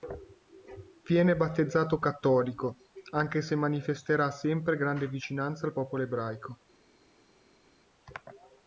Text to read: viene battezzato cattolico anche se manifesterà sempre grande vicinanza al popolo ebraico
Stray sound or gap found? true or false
false